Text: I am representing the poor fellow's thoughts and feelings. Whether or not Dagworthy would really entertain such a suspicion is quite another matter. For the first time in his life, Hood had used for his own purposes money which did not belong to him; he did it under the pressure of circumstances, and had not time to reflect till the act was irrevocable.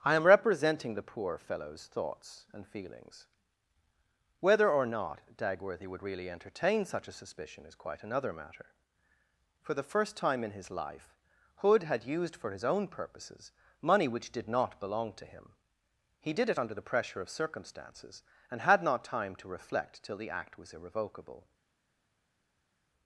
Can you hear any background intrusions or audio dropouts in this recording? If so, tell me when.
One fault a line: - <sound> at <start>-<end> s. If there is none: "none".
none